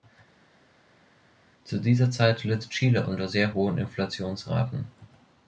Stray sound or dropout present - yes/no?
no